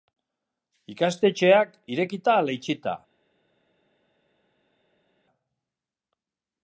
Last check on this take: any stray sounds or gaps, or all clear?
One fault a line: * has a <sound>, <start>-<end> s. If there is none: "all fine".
all fine